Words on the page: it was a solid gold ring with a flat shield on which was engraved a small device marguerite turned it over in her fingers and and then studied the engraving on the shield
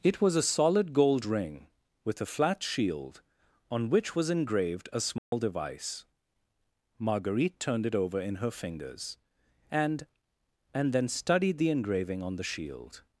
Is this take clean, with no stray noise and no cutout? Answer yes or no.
no